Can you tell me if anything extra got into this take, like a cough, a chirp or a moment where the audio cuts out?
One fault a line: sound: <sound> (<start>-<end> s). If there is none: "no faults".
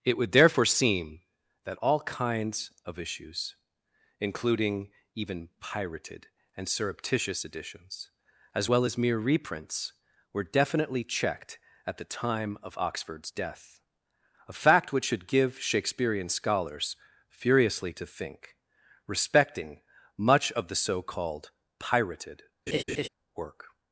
sound: laugh (22.7-23.1 s)